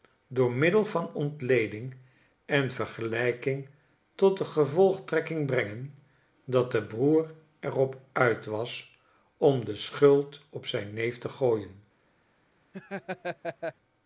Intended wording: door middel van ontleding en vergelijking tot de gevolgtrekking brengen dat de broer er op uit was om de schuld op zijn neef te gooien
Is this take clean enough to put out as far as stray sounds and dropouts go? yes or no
no